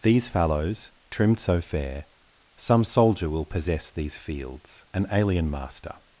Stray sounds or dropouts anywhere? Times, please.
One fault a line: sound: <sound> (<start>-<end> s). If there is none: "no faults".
no faults